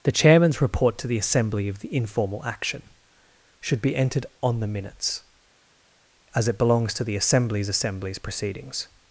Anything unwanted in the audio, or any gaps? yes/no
no